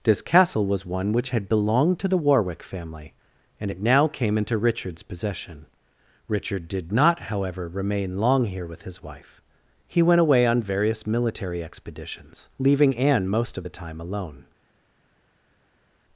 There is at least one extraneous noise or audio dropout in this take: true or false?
false